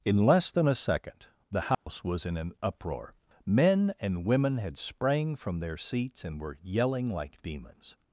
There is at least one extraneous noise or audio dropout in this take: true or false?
true